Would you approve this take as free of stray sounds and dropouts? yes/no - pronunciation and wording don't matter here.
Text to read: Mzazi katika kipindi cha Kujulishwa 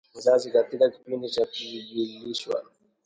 yes